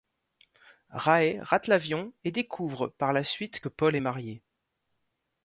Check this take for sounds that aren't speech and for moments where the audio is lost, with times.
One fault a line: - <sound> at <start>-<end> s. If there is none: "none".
none